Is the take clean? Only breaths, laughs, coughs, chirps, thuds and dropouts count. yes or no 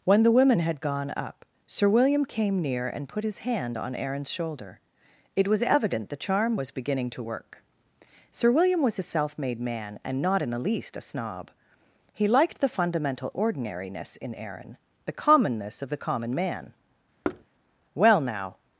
no